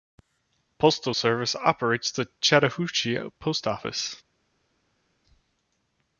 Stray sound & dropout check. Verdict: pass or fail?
pass